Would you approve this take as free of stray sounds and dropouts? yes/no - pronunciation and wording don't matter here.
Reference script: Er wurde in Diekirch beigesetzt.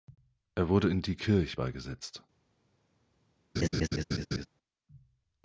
no